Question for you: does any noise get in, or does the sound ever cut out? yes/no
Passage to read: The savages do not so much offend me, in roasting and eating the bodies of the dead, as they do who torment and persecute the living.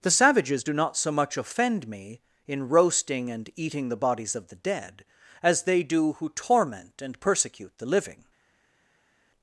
no